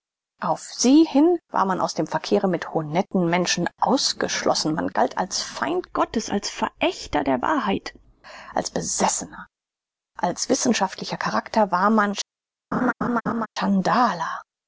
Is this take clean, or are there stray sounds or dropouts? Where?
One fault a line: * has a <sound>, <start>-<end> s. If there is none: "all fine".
* has a laugh, 12.7-13.5 s